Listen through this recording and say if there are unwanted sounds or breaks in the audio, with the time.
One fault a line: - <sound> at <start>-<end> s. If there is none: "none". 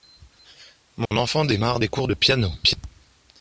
- dropout at 1.1-1.1 s